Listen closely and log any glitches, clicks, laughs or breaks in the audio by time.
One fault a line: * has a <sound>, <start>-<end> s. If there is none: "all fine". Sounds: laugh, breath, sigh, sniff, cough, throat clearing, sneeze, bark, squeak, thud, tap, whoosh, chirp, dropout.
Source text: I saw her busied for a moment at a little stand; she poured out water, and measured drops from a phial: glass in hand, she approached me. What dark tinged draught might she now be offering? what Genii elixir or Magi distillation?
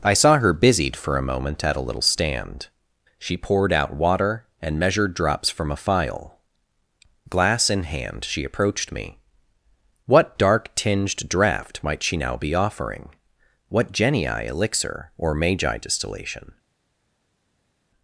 all fine